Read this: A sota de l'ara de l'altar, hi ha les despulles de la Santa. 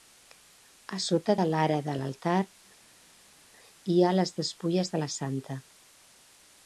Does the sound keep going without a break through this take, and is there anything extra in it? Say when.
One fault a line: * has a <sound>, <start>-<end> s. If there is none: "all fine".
all fine